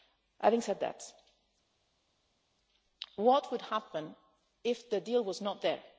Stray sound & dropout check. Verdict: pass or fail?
pass